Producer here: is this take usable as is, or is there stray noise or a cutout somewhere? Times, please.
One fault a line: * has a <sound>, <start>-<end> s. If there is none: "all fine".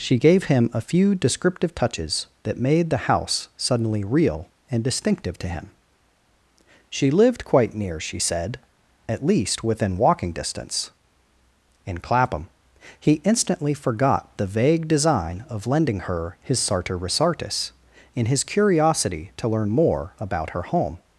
all fine